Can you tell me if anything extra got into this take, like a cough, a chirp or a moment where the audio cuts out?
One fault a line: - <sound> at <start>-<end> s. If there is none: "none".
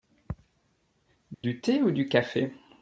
- dropout at 1.3-1.4 s